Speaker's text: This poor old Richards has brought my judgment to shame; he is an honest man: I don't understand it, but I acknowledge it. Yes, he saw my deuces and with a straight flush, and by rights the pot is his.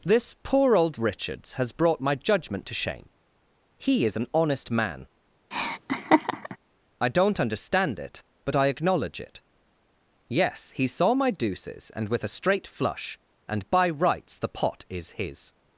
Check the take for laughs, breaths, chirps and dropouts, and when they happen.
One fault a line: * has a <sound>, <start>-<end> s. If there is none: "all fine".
* has a laugh, 5.5-6.6 s